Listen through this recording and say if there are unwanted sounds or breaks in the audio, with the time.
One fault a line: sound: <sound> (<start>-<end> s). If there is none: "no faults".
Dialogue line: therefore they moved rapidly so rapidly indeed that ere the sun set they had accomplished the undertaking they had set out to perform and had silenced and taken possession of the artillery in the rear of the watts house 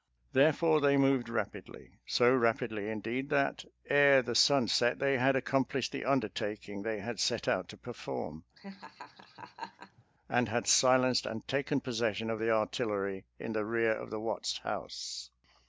sound: laugh (8.6-10.0 s)